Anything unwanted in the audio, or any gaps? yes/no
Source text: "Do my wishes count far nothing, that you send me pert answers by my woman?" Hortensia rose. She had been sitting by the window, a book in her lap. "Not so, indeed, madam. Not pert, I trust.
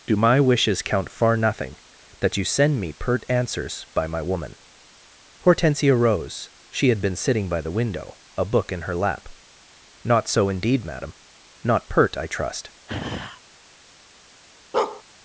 yes